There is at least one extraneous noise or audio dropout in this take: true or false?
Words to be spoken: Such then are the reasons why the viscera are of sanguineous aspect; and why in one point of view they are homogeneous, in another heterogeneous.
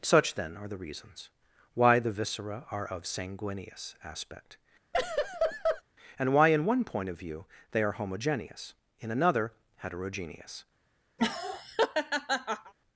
true